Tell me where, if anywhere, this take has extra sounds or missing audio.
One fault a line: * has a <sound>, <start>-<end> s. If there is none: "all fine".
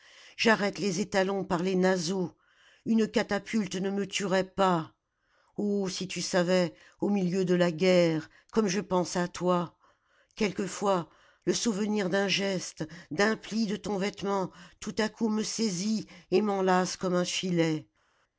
all fine